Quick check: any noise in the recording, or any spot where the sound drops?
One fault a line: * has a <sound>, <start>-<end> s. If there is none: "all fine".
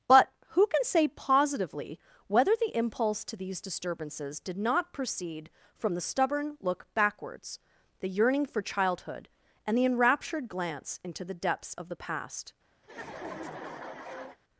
* has a laugh, 12.8-14.4 s